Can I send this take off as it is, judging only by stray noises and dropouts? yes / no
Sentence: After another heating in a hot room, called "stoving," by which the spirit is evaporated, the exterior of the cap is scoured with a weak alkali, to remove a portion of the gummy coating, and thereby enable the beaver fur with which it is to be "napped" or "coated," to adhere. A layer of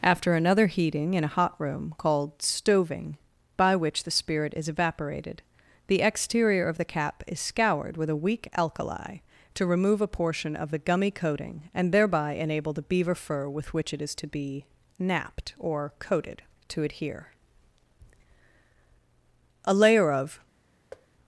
no